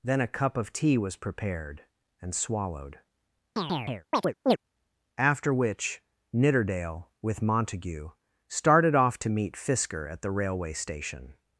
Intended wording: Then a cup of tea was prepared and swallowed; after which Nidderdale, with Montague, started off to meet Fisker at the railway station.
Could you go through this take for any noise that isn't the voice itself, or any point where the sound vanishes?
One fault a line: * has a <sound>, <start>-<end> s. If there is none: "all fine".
* has a chirp, 3.6-4.6 s